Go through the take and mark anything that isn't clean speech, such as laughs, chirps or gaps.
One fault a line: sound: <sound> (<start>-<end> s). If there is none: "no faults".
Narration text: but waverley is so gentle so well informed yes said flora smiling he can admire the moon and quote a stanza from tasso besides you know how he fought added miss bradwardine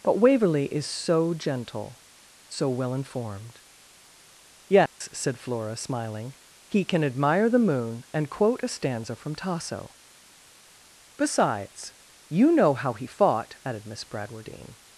sound: dropout (4.9-5.0 s)